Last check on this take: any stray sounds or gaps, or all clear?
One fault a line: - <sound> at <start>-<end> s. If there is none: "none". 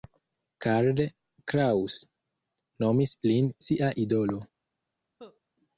- cough at 5.2-5.4 s